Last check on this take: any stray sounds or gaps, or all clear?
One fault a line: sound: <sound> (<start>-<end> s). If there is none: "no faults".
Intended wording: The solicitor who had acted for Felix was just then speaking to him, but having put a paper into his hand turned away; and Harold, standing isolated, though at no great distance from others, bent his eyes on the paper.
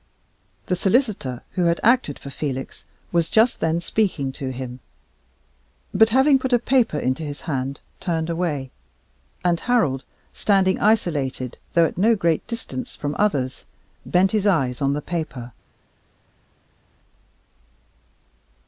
no faults